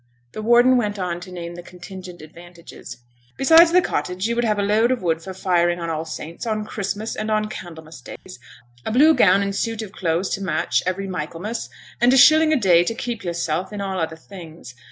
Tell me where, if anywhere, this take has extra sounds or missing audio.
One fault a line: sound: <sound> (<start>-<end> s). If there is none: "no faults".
sound: dropout (8.2-8.3 s)